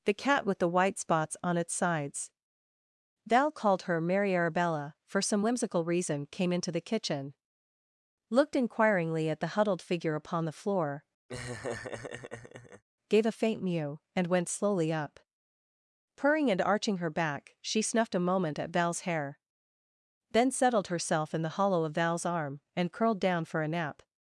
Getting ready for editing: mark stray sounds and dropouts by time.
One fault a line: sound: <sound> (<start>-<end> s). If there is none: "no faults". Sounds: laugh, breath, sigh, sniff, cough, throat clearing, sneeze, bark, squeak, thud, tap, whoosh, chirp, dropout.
sound: laugh (11.3-12.8 s)